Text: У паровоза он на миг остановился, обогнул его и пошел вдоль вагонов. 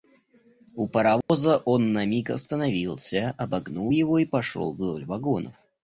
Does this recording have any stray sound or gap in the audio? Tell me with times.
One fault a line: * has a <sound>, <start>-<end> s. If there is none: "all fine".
* has a dropout, 1.2-1.3 s